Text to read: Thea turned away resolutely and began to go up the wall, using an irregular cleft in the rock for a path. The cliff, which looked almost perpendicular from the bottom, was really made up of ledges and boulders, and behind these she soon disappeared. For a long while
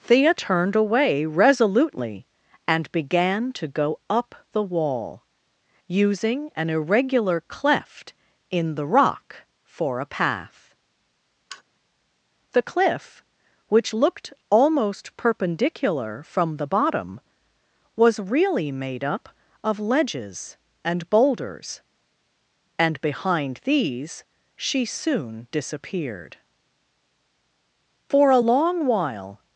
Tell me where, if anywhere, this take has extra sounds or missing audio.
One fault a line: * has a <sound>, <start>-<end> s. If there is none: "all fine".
* has a sigh, 11.5-11.6 s